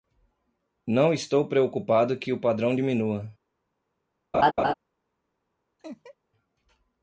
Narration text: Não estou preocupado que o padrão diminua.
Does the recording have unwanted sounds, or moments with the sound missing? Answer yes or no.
yes